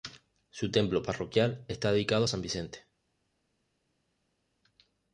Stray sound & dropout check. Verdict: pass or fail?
pass